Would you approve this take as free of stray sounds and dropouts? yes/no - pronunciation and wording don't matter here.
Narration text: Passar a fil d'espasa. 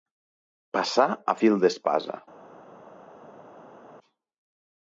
yes